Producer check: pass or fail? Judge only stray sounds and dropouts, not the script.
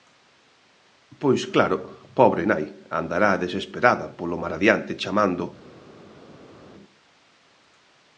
pass